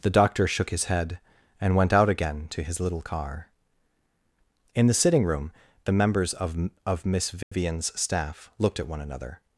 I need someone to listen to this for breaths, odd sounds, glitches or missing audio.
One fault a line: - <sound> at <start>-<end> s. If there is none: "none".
- dropout at 7.4-7.5 s